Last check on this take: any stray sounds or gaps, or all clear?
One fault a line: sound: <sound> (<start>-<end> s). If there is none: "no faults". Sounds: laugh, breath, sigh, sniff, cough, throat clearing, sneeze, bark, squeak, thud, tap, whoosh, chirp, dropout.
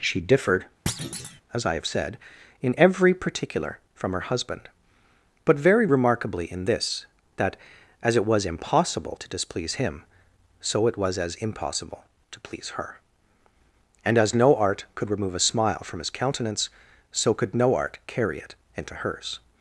sound: thud (0.9-1.4 s)